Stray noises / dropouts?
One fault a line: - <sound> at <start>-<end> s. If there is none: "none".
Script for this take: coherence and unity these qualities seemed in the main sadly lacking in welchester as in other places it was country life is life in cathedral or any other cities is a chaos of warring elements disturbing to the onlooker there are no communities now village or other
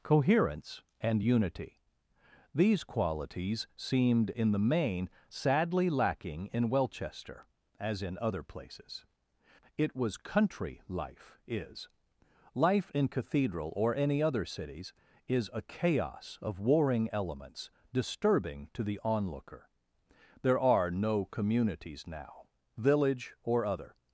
none